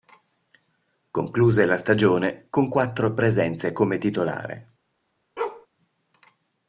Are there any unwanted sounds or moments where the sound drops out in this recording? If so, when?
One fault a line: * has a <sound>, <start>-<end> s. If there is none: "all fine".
* has a bark, 5.4-5.7 s